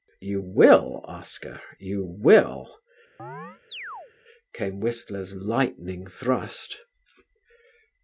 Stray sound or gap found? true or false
true